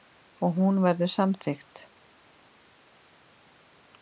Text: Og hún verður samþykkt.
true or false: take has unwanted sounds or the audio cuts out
false